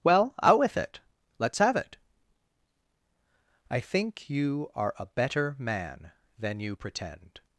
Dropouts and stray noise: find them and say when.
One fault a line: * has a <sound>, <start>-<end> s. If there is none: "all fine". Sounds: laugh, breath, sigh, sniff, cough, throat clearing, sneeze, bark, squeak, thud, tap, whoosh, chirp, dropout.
all fine